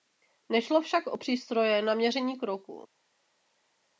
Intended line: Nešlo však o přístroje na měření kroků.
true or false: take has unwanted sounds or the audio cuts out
false